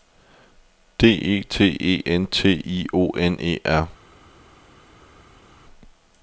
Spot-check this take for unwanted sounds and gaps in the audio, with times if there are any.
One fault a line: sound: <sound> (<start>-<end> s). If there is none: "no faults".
no faults